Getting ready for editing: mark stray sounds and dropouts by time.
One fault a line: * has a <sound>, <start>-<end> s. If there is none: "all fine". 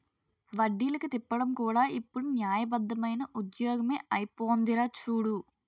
all fine